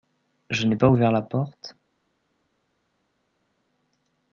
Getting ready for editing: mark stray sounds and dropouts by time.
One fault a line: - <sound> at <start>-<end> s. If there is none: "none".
none